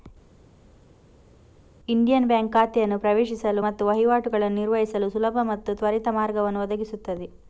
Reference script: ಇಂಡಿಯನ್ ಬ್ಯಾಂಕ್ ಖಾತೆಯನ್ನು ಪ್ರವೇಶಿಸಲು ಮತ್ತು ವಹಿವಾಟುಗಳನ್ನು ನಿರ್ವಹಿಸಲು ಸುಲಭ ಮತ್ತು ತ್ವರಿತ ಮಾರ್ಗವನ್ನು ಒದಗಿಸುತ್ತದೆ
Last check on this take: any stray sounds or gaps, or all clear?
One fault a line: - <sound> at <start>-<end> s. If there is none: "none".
none